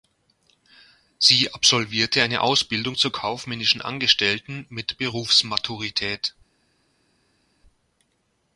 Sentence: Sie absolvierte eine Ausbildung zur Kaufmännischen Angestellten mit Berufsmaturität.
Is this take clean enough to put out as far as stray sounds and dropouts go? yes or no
yes